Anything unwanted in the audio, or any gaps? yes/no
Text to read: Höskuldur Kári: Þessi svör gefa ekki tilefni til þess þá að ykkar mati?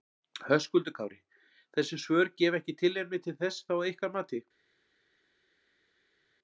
no